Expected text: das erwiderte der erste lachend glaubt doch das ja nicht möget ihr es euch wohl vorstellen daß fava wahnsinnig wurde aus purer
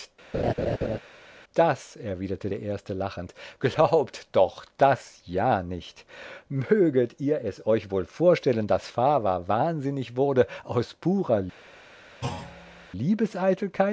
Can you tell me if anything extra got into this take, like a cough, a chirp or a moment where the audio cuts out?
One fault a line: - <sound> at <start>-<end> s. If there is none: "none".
- laugh at 0.3-1.0 s
- thud at 12.2-12.9 s